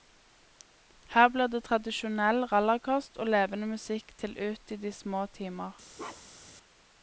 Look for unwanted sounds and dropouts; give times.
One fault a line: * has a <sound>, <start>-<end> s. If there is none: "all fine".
* has a bark, 6.0-6.6 s